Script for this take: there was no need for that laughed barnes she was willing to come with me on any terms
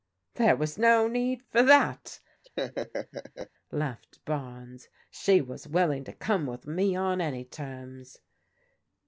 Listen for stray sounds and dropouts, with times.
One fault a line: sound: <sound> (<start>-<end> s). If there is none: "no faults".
sound: laugh (2.4-3.5 s)